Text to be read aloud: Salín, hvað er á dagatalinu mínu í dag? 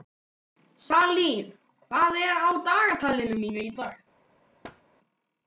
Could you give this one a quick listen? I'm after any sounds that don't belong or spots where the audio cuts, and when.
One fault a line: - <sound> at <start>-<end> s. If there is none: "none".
- thud at 4.6-4.8 s